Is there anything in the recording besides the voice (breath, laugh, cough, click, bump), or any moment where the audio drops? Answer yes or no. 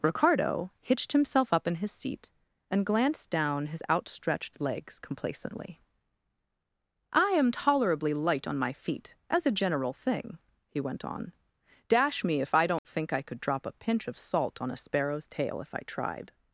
yes